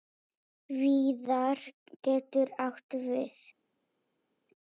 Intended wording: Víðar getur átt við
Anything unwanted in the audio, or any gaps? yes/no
no